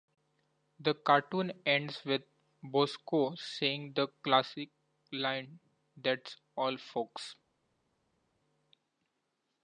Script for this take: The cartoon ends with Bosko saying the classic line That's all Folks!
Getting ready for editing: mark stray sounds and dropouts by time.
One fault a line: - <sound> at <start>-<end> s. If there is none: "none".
none